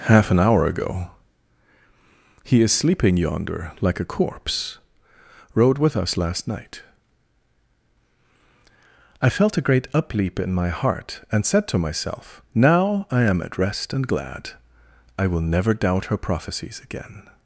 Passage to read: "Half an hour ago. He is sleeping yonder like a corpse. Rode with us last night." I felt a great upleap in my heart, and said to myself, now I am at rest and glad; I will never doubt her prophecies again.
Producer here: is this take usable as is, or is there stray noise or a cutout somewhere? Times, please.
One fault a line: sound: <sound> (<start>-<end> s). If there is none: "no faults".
no faults